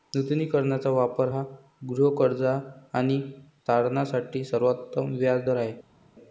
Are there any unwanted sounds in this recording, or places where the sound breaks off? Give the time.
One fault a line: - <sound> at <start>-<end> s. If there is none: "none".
none